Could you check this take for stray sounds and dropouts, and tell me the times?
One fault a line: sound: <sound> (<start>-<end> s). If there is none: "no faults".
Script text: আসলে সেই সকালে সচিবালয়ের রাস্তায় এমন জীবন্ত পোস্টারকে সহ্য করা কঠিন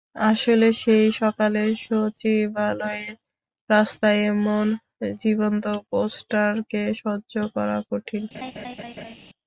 sound: laugh (8.3-9.2 s)